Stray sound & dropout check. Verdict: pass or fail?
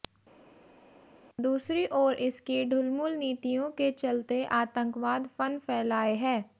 pass